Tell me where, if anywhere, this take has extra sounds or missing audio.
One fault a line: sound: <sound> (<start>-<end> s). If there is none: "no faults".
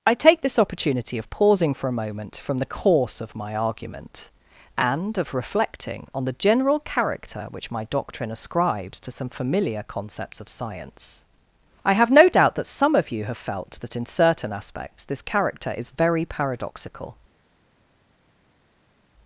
no faults